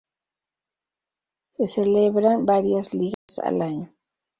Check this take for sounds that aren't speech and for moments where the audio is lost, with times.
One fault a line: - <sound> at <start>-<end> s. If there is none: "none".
- dropout at 3.1-3.3 s